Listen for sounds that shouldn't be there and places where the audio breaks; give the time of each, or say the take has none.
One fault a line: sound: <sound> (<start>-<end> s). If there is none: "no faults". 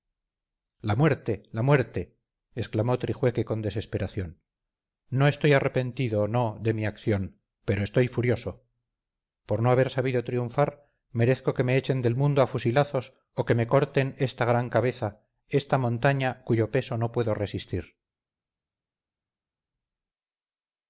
no faults